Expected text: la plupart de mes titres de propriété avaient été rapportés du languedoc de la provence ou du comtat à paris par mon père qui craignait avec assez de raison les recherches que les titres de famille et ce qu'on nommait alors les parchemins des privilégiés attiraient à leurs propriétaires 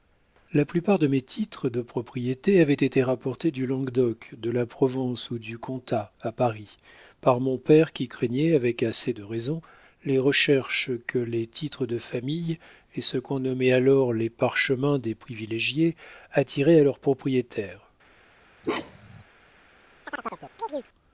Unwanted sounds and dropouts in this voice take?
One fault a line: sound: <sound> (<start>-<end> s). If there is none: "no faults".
sound: bark (18.6-19.2 s)
sound: chirp (20.0-20.9 s)